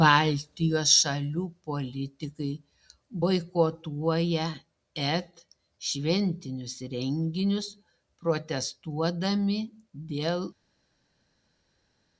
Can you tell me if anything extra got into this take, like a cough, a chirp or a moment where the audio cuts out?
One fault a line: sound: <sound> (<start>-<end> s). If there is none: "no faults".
no faults